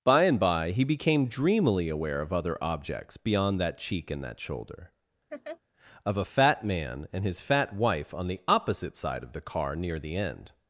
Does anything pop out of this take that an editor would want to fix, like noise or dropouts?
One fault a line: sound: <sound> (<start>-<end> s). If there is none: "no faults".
sound: laugh (5.3-5.6 s)